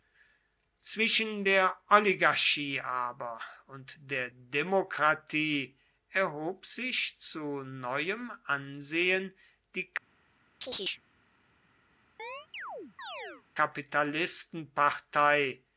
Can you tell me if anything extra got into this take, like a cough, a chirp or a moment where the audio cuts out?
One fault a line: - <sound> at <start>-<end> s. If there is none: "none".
- chirp at 10.6-11.0 s
- chirp at 12.2-13.4 s